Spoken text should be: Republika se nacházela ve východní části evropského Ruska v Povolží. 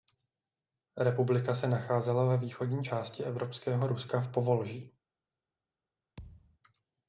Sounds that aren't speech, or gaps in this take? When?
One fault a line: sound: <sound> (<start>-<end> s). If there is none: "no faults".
sound: thud (6.2-6.6 s)